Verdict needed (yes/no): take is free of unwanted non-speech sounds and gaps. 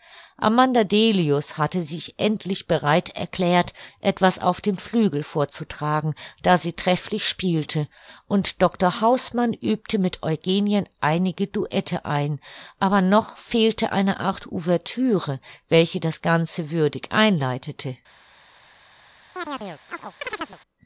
no